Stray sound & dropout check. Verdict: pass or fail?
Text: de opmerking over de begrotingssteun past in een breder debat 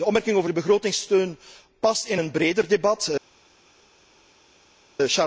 pass